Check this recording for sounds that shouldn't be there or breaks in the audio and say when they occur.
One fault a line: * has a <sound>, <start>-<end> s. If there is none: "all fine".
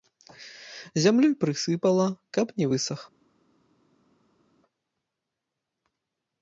all fine